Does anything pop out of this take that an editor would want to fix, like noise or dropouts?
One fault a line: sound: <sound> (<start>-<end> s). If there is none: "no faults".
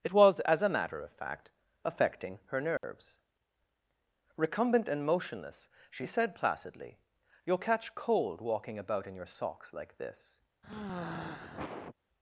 sound: dropout (2.8-2.8 s)
sound: sigh (10.6-12.0 s)